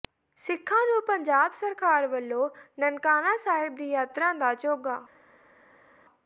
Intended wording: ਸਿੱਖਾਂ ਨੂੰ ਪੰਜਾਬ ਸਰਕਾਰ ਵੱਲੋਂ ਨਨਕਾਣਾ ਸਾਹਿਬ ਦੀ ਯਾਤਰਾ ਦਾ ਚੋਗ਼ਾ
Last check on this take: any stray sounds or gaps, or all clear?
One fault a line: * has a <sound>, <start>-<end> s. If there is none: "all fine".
all fine